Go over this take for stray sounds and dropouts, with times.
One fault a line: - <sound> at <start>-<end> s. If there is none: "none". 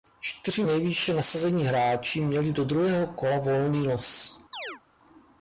- chirp at 4.5-4.8 s